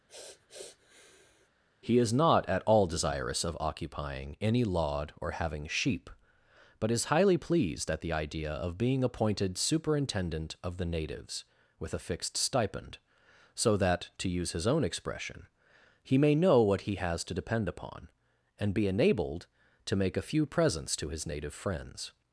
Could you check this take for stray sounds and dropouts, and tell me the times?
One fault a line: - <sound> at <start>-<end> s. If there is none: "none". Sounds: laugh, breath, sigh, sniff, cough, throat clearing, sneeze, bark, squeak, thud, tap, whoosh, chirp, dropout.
- sniff at 0.1-1.5 s